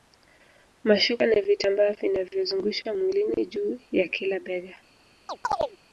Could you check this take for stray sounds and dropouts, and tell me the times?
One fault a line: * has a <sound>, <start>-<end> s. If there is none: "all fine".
* has a chirp, 5.3-5.8 s